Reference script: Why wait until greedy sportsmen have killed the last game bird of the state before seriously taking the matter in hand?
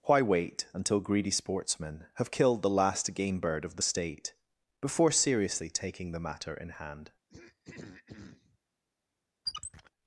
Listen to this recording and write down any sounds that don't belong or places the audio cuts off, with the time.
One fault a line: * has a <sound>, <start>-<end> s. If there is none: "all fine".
* has a throat clearing, 7.3-8.6 s
* has a squeak, 9.5-9.9 s